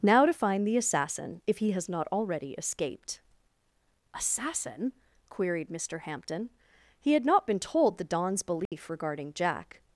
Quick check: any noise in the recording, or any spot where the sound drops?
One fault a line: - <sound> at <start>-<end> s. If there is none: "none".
- dropout at 8.7-8.7 s